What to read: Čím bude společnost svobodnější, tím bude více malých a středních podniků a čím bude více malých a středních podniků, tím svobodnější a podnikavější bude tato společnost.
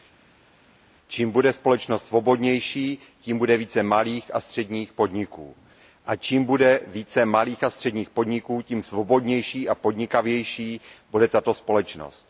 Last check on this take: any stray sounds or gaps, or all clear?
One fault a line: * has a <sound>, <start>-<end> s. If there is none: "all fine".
all fine